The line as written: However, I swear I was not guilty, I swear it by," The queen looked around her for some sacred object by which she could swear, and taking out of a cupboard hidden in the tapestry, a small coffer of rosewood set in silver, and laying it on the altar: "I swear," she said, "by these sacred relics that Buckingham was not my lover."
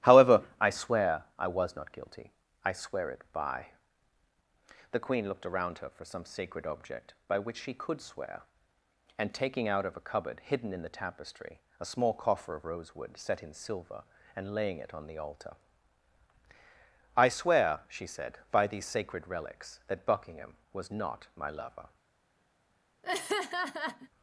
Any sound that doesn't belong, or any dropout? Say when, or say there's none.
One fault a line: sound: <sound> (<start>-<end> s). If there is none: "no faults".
sound: laugh (23.0-24.1 s)